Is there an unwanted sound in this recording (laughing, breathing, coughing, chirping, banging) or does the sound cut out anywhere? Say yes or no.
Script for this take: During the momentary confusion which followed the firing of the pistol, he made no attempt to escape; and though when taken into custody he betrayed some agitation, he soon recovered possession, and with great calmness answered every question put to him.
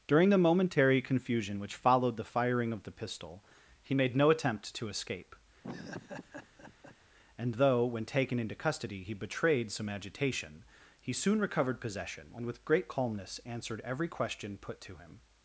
yes